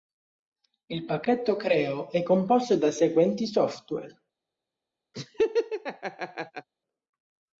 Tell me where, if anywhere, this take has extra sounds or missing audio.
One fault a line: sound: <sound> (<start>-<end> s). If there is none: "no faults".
sound: laugh (5.1-6.7 s)